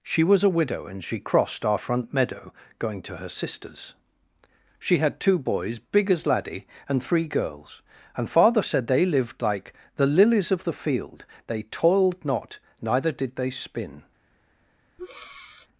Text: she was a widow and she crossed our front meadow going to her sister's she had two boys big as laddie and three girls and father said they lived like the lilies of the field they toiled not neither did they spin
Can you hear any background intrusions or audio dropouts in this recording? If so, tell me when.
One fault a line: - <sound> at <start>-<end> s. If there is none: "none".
- breath at 15.0-15.7 s